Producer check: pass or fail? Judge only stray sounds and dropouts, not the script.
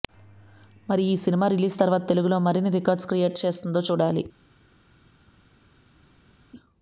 pass